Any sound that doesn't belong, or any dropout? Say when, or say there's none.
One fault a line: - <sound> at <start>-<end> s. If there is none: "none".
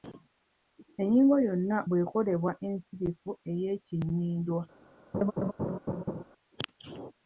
- laugh at 5.1-6.2 s